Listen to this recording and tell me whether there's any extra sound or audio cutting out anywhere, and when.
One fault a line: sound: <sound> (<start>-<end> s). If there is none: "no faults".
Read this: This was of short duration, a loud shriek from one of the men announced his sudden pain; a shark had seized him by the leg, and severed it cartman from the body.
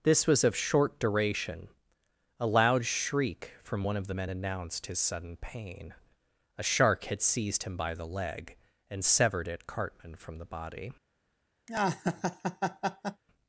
sound: laugh (11.7-13.2 s)